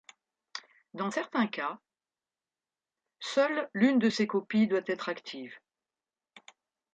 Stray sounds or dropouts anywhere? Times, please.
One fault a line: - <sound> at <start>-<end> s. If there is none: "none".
none